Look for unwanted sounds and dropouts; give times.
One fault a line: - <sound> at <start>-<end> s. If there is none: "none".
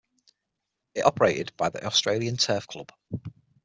none